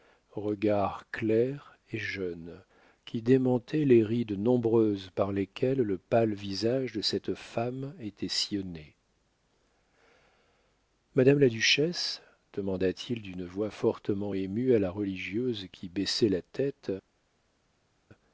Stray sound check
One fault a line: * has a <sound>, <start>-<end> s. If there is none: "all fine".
all fine